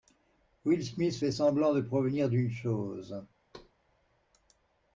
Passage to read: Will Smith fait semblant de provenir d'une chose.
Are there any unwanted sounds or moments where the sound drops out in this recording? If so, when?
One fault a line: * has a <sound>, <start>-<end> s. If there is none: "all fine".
* has a thud, 3.5-3.7 s